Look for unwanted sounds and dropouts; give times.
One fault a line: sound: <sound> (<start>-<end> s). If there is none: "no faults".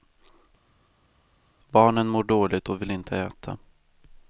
no faults